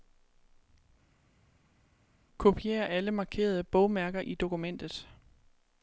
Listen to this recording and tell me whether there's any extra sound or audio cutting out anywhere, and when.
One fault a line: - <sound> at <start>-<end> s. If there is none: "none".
none